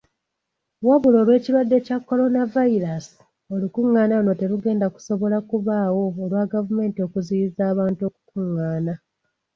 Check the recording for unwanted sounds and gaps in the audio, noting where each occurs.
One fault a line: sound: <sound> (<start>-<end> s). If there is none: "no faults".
no faults